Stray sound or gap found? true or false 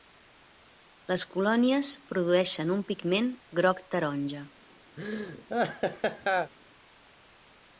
true